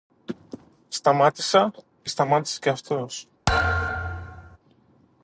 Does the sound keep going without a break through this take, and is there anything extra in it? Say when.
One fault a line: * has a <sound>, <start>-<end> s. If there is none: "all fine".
* has a thud, 3.5-4.6 s